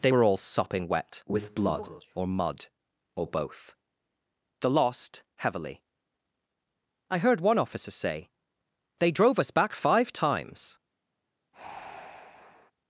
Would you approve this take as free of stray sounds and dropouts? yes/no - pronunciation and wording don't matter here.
no